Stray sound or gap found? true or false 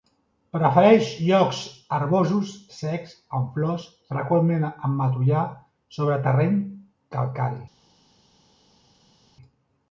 false